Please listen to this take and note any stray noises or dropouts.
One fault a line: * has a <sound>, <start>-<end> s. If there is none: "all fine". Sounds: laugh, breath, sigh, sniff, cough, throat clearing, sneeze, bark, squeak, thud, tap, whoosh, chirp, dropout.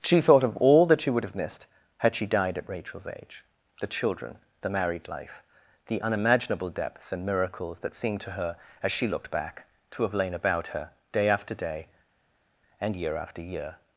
all fine